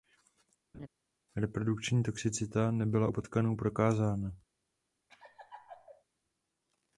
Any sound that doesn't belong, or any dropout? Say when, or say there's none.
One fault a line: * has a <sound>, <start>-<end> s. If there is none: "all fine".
* has a laugh, 0.7-0.9 s
* has a laugh, 5.1-6.0 s